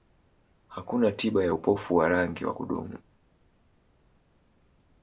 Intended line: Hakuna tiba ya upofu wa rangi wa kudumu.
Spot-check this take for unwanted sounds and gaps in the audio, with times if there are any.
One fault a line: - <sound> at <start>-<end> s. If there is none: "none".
none